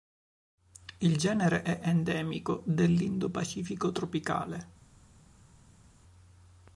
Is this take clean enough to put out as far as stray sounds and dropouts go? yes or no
yes